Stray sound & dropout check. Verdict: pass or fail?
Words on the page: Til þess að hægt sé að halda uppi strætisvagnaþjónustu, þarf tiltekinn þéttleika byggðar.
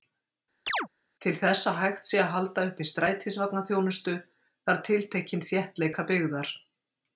fail